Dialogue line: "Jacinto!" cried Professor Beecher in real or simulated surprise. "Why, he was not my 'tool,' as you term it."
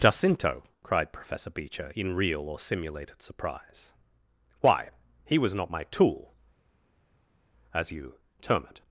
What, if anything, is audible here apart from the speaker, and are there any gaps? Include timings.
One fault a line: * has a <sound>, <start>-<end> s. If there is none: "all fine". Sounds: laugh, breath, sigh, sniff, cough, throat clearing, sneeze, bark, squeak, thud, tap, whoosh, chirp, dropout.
all fine